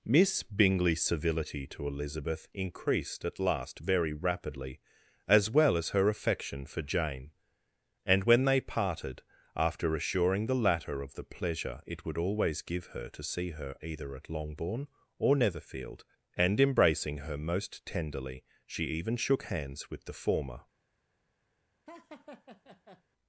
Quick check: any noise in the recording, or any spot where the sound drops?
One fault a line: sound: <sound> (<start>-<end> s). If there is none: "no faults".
sound: laugh (21.9-23.0 s)